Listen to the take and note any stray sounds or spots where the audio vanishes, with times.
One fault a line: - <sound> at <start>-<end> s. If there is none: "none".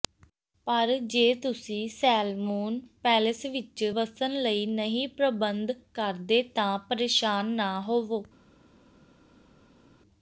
none